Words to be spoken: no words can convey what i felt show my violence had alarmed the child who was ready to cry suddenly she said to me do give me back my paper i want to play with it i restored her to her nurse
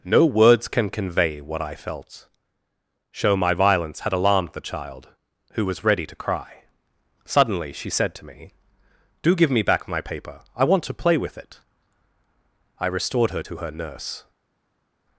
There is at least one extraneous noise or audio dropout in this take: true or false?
false